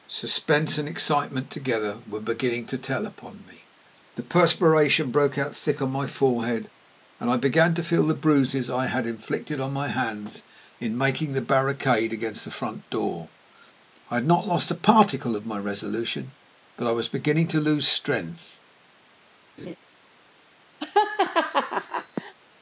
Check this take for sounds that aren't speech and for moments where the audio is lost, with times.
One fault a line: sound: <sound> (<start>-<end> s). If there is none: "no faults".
sound: laugh (19.6-19.8 s)
sound: laugh (20.8-22.3 s)